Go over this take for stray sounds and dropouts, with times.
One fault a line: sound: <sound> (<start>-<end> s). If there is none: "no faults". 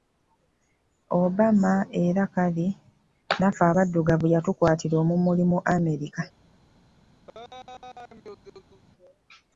sound: laugh (7.3-8.8 s)